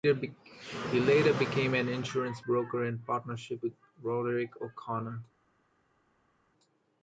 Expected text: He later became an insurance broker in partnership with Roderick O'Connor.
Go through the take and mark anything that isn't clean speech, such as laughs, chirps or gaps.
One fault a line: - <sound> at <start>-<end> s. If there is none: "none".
none